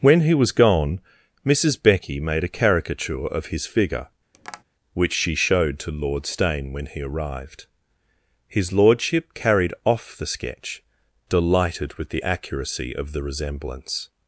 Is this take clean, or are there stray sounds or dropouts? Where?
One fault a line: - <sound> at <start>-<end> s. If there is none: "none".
- tap at 4.3-4.6 s